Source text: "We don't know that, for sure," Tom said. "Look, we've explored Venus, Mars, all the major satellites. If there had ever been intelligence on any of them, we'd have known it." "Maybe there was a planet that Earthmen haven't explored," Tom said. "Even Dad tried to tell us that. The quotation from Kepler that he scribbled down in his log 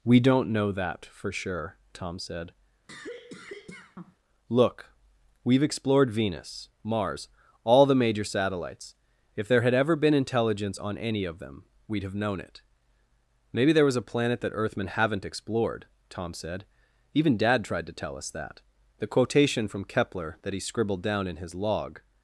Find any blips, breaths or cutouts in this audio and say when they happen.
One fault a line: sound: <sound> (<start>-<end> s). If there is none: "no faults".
sound: cough (2.9-4.2 s)